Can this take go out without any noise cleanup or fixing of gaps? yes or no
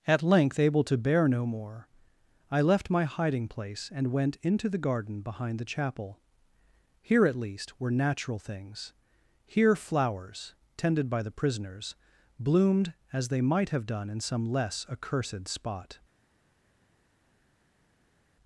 yes